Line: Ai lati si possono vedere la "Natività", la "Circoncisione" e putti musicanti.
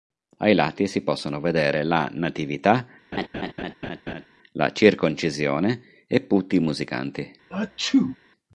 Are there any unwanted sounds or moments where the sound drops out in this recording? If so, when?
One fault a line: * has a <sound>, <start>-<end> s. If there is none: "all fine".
* has a laugh, 3.1-4.3 s
* has a sneeze, 7.5-8.2 s